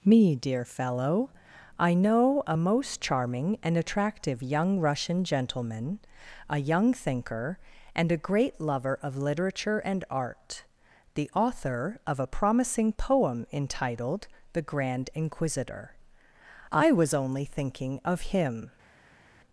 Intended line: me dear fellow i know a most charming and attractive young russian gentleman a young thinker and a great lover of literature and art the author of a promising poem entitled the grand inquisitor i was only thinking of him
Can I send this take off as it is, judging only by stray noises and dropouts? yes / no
yes